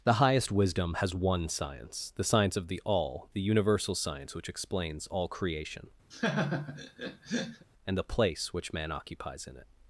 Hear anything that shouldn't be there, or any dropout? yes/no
yes